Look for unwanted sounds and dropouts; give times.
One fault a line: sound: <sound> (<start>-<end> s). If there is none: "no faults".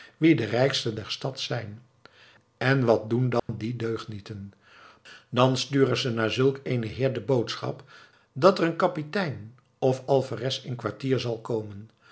sound: dropout (3.4-3.5 s)